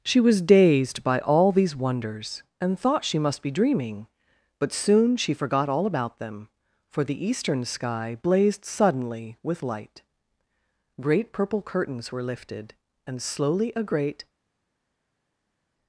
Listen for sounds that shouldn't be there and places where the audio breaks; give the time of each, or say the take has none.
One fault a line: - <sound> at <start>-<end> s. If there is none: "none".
none